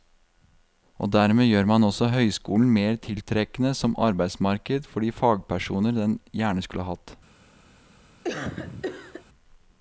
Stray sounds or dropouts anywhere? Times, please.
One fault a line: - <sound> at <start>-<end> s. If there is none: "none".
- cough at 8.2-9.2 s